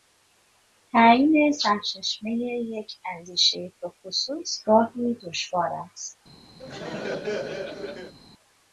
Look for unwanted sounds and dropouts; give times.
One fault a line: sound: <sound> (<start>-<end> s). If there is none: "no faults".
sound: laugh (6.6-8.1 s)